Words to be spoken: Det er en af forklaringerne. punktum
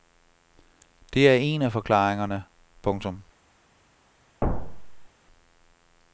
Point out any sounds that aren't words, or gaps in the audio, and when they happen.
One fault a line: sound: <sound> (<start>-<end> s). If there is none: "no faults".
sound: thud (4.4-5.1 s)